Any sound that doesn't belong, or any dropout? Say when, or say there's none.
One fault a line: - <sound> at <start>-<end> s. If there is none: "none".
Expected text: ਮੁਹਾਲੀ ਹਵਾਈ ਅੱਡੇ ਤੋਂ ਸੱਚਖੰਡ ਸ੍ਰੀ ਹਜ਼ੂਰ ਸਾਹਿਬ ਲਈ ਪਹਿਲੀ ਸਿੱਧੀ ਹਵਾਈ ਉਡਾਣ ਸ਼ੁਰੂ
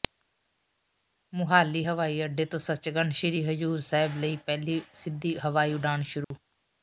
- dropout at 6.2-6.3 s